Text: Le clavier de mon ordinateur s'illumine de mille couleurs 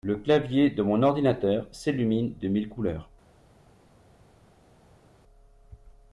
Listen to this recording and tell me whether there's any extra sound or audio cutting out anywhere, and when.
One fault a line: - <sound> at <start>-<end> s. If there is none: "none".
none